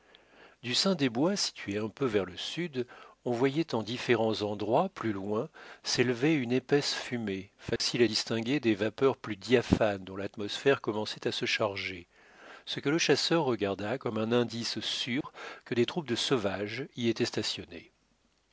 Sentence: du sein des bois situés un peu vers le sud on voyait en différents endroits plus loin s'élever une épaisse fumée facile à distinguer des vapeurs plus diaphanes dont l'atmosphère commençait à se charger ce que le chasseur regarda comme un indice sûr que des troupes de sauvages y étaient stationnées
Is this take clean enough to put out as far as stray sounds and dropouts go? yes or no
no